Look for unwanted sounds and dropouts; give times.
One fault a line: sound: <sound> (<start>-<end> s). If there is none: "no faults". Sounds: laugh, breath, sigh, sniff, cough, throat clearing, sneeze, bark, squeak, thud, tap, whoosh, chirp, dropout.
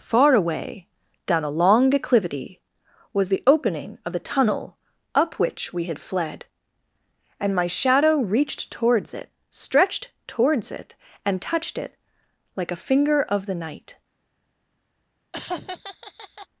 sound: laugh (15.3-16.5 s)